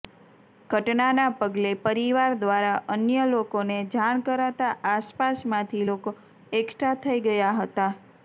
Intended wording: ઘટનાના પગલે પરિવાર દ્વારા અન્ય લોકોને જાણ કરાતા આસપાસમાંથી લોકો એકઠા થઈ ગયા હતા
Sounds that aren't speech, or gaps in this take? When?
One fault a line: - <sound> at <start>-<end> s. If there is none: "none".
none